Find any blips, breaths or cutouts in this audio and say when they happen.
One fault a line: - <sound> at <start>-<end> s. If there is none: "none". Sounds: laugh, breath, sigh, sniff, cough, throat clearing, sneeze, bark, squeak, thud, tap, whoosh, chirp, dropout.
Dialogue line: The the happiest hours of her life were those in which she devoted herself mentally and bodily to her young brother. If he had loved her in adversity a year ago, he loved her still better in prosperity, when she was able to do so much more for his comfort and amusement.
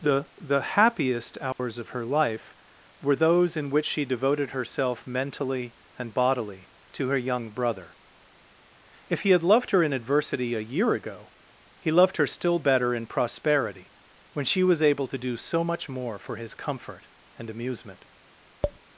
- dropout at 1.5-1.6 s
- tap at 18.6-18.8 s